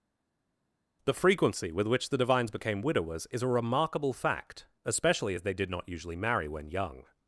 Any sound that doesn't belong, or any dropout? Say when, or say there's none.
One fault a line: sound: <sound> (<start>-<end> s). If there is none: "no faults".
no faults